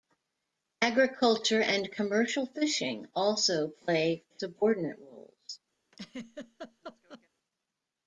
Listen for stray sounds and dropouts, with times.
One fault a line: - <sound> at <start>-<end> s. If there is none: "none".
- laugh at 5.9-7.3 s